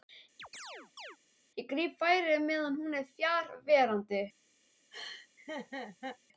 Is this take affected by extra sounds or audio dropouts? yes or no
yes